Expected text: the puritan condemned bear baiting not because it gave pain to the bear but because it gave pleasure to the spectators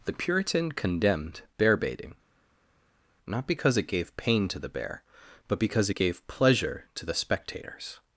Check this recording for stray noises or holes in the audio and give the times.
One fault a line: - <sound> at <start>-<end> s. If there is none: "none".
none